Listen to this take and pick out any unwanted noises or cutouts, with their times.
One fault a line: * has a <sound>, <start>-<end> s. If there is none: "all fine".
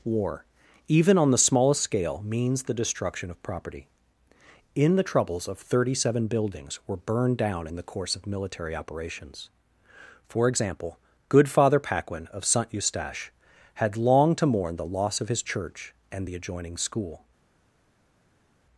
all fine